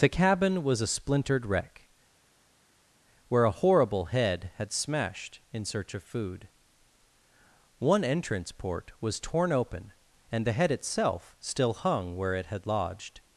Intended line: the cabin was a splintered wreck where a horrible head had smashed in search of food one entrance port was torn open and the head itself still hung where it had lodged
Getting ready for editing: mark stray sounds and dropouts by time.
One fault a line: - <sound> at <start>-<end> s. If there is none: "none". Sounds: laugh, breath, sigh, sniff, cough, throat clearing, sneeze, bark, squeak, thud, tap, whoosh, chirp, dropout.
none